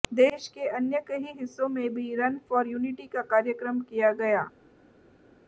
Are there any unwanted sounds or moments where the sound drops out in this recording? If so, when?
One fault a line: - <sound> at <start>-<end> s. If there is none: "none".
none